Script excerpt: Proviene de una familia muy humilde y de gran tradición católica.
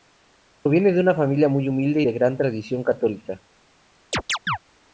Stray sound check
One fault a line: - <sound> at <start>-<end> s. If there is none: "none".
- chirp at 4.1-4.6 s